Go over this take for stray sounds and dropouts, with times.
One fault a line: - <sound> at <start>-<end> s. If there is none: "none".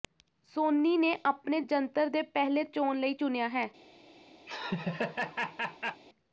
- laugh at 4.5-6.0 s